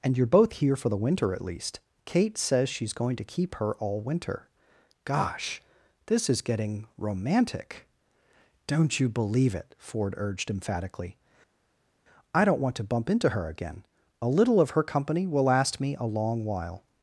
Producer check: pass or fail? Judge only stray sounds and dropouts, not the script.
pass